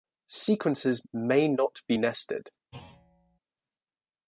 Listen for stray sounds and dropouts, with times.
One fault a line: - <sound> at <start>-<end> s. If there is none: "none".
- thud at 2.7-3.4 s